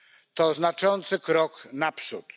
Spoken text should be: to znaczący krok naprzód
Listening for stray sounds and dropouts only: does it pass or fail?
pass